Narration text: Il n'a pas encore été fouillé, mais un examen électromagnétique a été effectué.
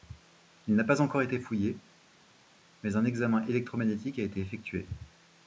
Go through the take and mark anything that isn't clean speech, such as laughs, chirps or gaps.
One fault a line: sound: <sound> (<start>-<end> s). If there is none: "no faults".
no faults